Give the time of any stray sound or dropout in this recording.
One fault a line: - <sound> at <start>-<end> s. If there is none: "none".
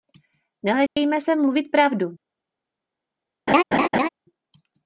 - dropout at 0.9-1.0 s
- laugh at 3.5-4.1 s